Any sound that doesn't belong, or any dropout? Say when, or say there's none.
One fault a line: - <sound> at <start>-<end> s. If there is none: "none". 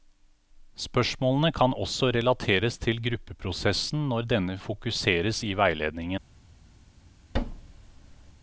- thud at 7.3-8.3 s